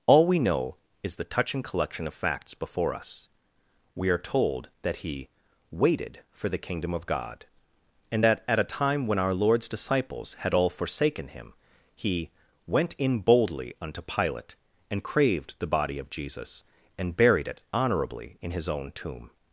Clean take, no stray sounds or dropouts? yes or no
yes